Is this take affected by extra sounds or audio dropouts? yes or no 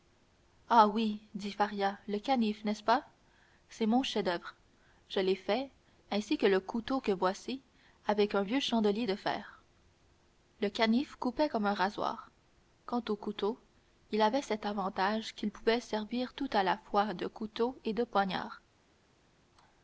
no